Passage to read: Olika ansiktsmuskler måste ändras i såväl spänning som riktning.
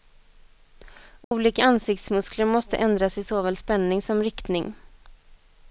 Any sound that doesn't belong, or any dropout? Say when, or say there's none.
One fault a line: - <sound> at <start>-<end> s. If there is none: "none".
- dropout at 1.2-1.3 s